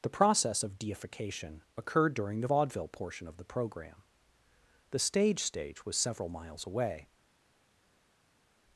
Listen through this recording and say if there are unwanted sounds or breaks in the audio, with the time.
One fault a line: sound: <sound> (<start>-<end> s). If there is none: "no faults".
no faults